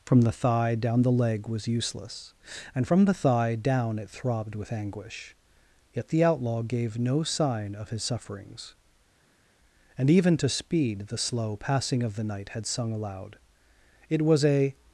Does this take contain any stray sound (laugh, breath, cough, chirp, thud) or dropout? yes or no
no